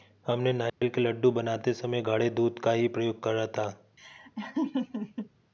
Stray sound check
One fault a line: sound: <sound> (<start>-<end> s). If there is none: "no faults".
sound: dropout (0.7-0.8 s)
sound: laugh (4.0-5.3 s)